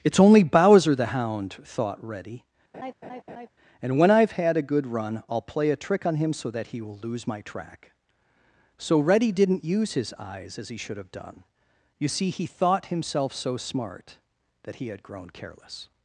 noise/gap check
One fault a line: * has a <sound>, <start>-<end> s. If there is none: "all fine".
* has a laugh, 2.7-3.5 s